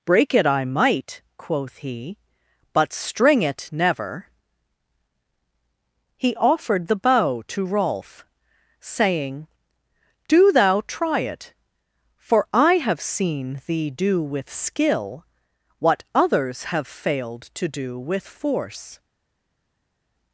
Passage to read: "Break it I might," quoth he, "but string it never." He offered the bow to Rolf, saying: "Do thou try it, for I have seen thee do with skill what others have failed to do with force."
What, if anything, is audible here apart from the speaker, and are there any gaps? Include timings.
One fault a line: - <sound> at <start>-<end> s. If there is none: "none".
none